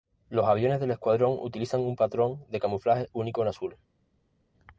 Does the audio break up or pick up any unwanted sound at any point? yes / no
no